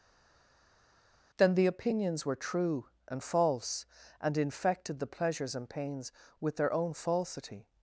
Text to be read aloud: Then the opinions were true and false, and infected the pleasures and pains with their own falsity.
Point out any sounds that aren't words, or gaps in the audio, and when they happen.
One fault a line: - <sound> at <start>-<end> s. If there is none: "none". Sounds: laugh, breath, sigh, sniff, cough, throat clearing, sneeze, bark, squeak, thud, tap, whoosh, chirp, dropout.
none